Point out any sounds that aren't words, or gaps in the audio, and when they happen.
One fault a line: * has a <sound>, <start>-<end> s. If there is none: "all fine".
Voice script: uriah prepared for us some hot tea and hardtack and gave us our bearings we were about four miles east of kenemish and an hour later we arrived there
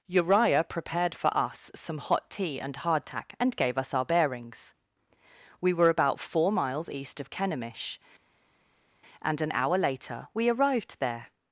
all fine